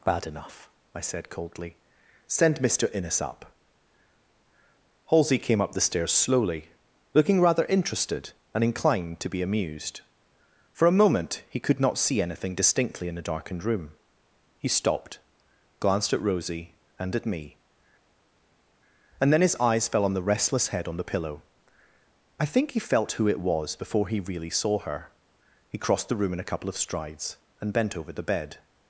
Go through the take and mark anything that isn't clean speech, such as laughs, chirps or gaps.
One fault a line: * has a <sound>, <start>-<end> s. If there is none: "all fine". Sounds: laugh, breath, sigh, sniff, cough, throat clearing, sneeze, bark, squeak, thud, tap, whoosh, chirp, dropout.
all fine